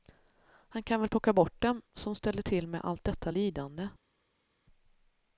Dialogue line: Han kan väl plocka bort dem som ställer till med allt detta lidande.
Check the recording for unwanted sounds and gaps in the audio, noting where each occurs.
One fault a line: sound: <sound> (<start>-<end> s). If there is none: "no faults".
no faults